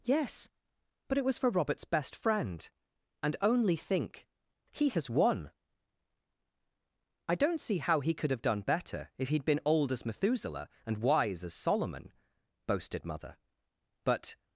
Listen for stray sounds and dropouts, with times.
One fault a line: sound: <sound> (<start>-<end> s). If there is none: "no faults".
no faults